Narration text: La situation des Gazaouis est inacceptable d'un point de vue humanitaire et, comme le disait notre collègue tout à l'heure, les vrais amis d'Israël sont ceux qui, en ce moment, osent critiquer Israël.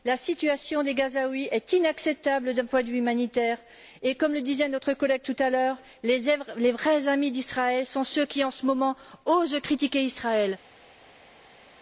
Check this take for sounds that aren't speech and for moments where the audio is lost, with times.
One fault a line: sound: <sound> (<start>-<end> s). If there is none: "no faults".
no faults